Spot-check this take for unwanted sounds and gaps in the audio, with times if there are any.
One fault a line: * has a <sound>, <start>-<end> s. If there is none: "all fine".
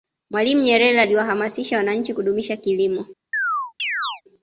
* has a chirp, 3.3-4.2 s